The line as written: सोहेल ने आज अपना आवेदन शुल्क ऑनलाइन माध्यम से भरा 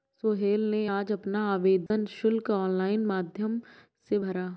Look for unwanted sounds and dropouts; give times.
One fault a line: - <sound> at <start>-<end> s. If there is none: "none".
- dropout at 1.9-1.9 s